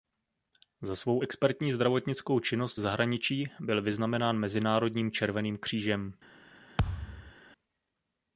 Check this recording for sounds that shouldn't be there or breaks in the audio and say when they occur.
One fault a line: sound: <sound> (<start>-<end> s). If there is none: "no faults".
sound: thud (6.8-7.3 s)